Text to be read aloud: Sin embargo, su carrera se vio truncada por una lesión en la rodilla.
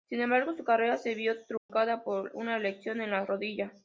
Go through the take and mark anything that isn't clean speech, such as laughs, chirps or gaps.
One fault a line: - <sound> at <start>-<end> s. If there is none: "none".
- dropout at 1.6-1.7 s